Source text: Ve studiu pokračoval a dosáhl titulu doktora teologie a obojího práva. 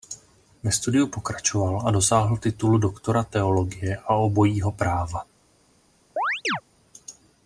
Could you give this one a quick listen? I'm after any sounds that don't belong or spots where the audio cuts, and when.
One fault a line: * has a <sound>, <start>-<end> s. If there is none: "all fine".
* has a chirp, 6.2-6.6 s